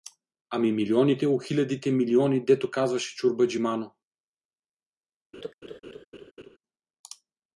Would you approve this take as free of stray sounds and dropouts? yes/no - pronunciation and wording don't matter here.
no